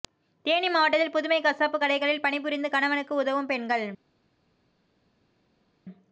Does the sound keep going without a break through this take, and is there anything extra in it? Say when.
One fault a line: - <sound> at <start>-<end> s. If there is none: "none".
none